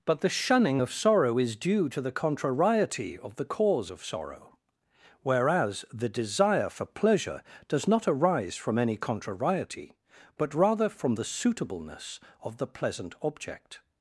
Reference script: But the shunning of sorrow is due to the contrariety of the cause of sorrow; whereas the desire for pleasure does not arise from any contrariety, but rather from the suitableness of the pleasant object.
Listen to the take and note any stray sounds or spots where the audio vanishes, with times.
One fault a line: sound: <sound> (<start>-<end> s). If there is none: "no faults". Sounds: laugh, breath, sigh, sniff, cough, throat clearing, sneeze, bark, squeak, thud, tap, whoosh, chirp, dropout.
no faults